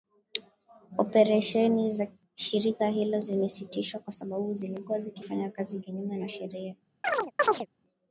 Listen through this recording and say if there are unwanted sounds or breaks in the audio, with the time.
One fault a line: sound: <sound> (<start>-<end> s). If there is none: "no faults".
sound: chirp (7.0-7.7 s)